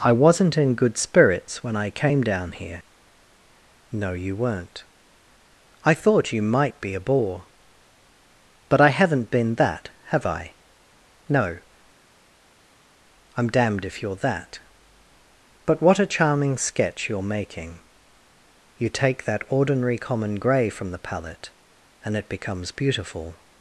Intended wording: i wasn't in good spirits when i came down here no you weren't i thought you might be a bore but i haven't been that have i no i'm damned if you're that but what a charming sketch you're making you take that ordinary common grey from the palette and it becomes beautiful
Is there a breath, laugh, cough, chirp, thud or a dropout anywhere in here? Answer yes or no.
no